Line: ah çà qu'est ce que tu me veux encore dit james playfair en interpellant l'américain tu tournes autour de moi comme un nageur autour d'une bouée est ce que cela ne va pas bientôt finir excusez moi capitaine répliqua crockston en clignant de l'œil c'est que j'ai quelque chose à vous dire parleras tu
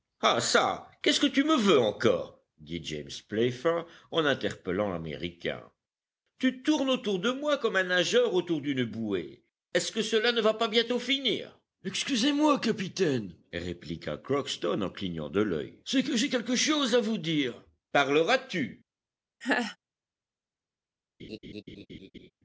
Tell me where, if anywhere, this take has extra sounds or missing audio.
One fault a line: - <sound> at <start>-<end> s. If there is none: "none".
- laugh at 19.4-19.8 s
- laugh at 21.2-22.3 s